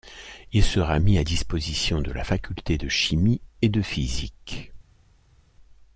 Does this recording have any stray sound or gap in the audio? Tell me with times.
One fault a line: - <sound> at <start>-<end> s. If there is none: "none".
none